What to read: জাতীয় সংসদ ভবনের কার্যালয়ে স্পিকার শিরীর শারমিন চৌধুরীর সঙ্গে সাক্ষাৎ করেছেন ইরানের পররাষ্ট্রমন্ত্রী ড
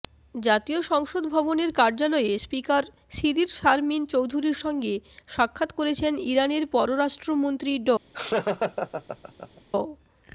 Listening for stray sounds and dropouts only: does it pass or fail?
fail